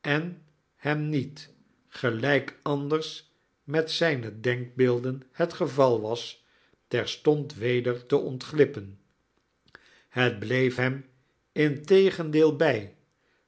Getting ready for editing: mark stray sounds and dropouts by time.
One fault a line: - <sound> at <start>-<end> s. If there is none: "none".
none